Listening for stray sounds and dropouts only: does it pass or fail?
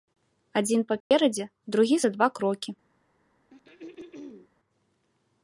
fail